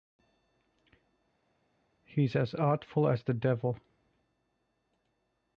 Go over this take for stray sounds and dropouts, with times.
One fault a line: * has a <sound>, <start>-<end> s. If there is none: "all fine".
all fine